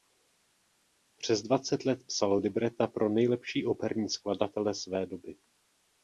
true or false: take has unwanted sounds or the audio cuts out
false